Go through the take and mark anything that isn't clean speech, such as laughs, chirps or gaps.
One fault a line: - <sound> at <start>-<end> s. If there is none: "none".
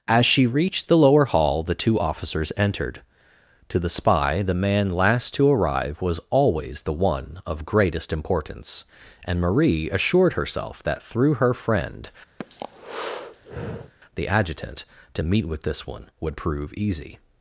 - breath at 12.4-13.9 s